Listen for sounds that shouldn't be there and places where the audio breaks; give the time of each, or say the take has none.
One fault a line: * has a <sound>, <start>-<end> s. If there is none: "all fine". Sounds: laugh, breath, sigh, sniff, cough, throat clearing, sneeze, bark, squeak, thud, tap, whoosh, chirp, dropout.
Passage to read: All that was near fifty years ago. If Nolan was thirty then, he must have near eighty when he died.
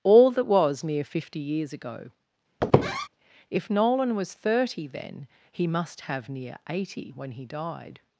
* has a squeak, 2.6-3.1 s